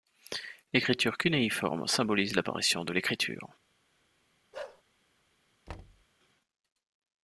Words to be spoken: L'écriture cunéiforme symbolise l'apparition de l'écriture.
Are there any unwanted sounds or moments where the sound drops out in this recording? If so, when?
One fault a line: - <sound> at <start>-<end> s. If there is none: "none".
- bark at 4.5-4.8 s
- thud at 5.7-6.1 s